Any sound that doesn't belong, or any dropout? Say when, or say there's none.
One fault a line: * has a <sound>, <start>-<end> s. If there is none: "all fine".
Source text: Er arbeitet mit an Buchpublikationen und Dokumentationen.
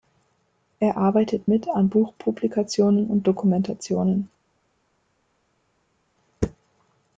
all fine